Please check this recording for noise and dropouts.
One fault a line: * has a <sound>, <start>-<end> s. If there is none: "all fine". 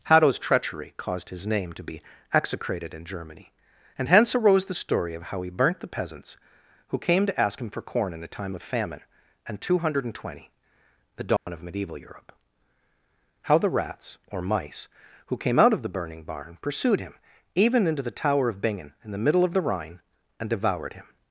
* has a dropout, 11.4-11.5 s